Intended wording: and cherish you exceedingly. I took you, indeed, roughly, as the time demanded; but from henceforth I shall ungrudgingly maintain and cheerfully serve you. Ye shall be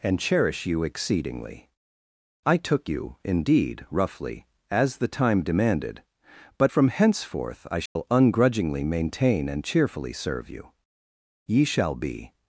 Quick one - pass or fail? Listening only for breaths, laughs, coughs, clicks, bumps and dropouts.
fail